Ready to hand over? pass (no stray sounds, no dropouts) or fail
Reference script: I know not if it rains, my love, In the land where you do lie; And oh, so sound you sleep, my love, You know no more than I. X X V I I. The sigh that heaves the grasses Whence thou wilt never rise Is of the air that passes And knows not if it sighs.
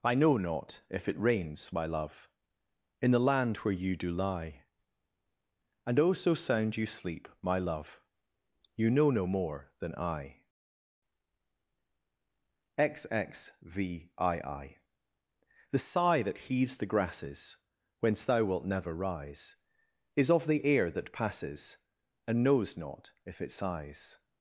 pass